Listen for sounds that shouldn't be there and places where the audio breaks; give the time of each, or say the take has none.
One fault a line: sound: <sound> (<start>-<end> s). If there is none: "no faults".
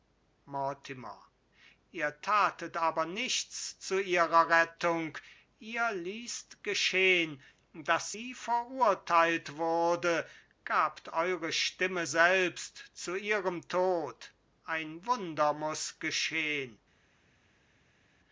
no faults